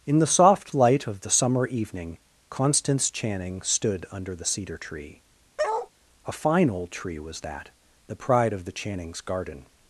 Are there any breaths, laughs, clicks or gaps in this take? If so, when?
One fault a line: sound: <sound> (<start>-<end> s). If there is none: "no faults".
sound: bark (5.6-5.9 s)